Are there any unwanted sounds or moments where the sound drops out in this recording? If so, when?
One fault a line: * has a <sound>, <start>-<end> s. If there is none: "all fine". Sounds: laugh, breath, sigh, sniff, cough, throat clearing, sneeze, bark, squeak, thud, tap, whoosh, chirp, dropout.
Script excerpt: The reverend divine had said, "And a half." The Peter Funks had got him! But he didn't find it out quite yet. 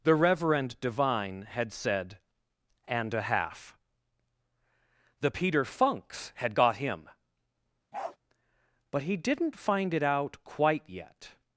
* has a bark, 7.9-8.2 s